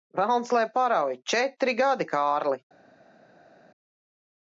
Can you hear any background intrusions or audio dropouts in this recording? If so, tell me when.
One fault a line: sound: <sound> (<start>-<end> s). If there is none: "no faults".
no faults